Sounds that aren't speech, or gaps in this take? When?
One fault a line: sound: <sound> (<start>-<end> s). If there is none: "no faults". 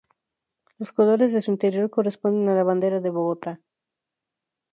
no faults